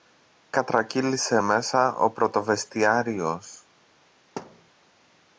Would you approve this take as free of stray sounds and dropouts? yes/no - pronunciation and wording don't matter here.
no